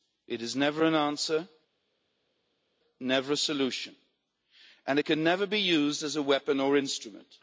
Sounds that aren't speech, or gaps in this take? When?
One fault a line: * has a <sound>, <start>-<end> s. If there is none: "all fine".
all fine